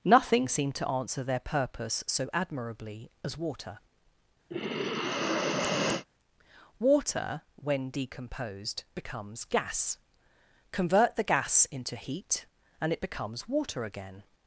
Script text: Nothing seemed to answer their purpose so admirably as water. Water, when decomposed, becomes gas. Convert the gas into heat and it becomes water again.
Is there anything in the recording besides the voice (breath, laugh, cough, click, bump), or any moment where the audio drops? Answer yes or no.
yes